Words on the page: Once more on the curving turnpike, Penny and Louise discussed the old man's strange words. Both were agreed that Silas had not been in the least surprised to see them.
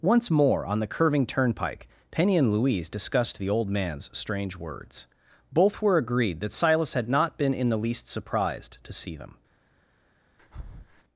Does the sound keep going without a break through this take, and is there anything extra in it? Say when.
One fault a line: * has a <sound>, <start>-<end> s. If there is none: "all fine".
* has a breath, 10.4-11.0 s